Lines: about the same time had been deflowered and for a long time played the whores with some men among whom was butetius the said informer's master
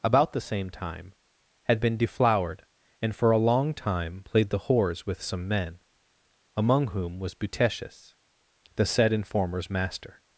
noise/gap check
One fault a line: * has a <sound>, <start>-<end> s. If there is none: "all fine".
all fine